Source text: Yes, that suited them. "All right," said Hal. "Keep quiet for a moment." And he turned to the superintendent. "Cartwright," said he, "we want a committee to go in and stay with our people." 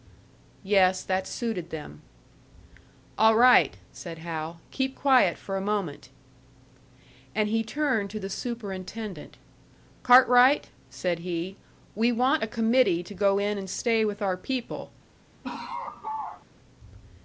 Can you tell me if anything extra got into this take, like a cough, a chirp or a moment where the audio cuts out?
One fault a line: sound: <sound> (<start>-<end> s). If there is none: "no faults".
sound: laugh (15.4-16.5 s)